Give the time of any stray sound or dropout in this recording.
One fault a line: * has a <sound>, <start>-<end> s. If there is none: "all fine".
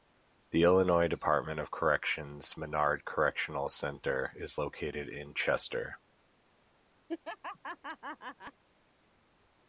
* has a laugh, 7.1-8.6 s